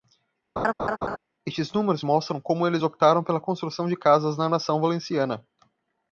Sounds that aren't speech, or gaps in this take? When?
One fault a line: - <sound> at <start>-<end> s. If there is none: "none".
- laugh at 0.6-1.2 s